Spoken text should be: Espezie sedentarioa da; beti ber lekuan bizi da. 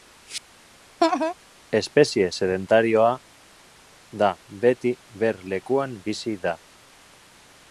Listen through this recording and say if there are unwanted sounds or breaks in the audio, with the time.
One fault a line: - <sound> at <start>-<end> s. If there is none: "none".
- laugh at 1.0-1.3 s